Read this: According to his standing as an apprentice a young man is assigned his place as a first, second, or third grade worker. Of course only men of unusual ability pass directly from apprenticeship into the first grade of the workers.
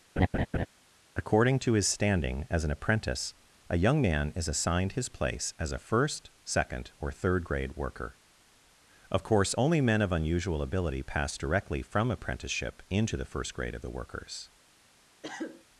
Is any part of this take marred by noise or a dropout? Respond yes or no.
yes